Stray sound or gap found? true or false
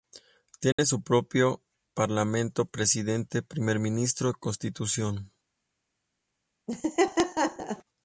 true